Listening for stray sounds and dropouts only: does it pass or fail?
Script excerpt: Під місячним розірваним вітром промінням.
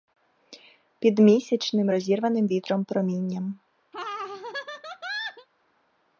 fail